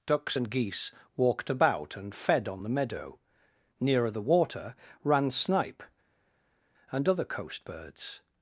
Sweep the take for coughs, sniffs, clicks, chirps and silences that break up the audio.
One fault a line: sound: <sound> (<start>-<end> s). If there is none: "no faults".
no faults